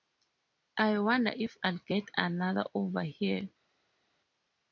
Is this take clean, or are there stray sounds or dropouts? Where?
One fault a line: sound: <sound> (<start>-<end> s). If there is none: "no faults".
no faults